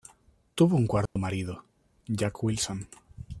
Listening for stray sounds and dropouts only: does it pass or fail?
fail